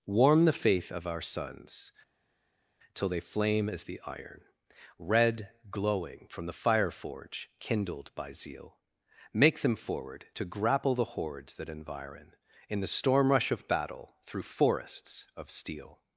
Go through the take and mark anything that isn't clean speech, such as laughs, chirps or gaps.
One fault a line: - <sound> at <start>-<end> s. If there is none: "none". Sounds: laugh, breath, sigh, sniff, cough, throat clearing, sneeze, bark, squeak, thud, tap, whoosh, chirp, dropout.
none